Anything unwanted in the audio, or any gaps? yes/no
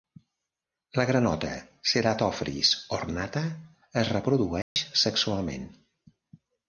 yes